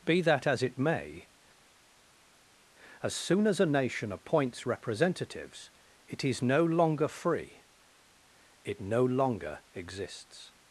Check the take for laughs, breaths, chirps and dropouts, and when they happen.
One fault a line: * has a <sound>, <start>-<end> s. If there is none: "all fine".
all fine